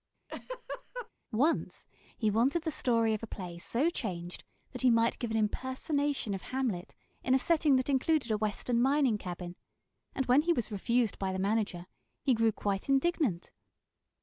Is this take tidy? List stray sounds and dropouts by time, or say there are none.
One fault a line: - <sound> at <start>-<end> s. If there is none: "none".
- laugh at 0.3-1.1 s